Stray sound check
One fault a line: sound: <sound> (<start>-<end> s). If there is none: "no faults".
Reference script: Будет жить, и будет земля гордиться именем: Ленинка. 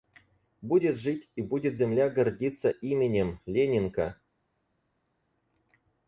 no faults